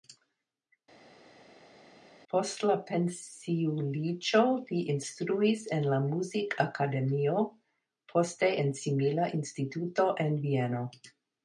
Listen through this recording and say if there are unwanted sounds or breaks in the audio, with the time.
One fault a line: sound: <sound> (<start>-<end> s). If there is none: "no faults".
no faults